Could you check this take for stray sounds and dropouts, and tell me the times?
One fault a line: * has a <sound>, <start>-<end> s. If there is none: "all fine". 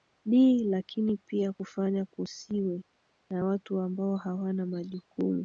all fine